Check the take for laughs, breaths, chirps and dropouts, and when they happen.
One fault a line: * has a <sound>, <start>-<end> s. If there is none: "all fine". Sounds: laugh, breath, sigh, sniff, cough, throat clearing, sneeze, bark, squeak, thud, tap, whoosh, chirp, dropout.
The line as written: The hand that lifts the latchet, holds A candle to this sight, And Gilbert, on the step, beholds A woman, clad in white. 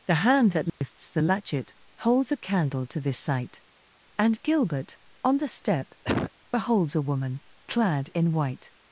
* has a dropout, 0.7-0.8 s
* has a cough, 6.0-6.3 s